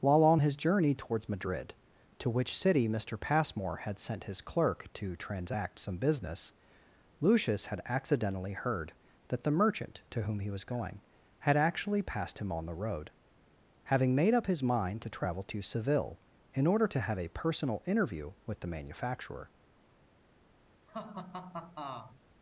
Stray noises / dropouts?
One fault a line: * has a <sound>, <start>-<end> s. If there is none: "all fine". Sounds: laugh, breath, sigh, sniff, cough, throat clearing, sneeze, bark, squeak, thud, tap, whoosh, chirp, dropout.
* has a laugh, 20.9-22.2 s